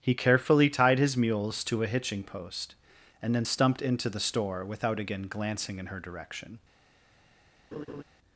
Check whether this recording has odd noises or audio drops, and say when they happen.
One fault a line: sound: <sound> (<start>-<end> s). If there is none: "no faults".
sound: laugh (7.7-8.0 s)